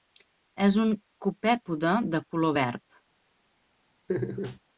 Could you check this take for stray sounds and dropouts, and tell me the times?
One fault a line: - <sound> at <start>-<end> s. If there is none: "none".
- laugh at 4.1-4.6 s